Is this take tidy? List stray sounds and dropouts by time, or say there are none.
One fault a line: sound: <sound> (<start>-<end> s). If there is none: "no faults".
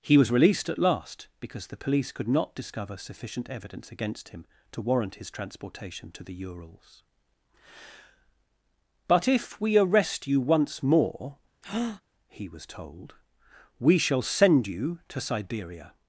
sound: breath (11.6-12.0 s)